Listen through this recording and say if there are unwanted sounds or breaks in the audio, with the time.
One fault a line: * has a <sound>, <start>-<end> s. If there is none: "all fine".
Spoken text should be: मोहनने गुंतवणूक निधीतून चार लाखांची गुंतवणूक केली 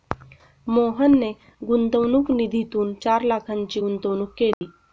* has a dropout, 4.5-4.6 s